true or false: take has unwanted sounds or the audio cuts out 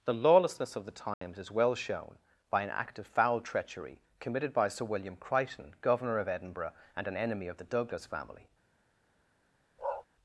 true